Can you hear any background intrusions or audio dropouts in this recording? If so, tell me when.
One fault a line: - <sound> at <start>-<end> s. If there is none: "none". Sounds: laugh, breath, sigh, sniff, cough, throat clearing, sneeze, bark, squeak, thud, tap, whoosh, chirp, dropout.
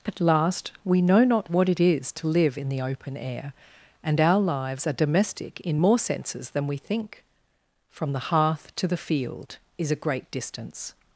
none